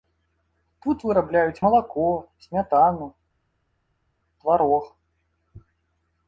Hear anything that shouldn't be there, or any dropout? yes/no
no